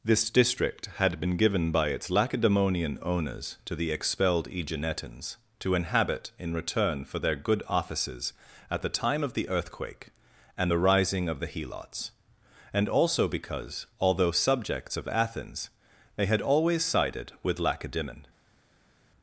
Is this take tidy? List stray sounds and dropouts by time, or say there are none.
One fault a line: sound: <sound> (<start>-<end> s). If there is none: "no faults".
no faults